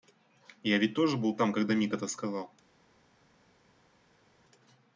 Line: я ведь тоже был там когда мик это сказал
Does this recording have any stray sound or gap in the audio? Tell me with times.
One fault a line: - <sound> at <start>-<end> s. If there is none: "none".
none